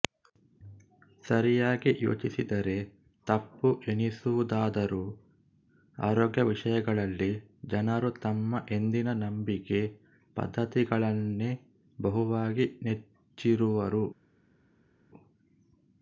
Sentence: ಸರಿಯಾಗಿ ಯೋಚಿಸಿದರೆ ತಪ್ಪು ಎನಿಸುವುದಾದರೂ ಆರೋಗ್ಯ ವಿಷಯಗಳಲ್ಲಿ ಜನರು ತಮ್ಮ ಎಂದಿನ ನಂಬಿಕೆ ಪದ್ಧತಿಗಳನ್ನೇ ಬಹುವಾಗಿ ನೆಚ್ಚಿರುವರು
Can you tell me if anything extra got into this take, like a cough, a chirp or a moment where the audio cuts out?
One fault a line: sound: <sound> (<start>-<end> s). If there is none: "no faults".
no faults